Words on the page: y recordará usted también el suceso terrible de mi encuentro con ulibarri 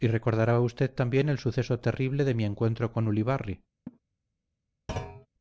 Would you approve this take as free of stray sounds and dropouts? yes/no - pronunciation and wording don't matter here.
no